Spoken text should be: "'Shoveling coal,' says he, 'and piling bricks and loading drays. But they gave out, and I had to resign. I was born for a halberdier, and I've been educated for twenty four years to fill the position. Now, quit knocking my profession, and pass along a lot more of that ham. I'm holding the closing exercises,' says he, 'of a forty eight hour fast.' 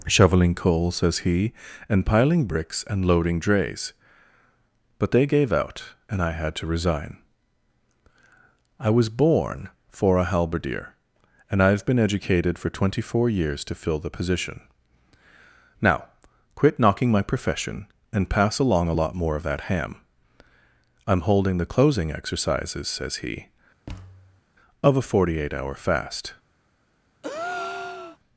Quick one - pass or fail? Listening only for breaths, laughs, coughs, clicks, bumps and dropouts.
fail